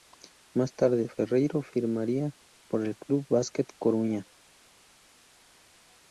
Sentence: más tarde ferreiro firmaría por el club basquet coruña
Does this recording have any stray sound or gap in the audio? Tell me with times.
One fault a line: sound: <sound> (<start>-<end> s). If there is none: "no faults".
no faults